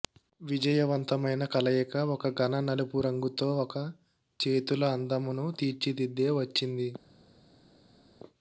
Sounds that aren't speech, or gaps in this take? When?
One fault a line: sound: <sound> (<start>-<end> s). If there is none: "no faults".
no faults